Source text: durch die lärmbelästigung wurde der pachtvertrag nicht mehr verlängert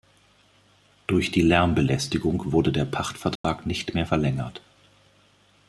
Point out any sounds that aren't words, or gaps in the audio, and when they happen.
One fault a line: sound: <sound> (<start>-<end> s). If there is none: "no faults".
sound: dropout (3.4-3.4 s)